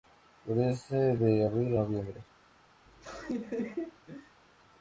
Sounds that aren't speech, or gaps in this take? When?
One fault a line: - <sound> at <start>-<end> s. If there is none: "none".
- laugh at 2.9-4.4 s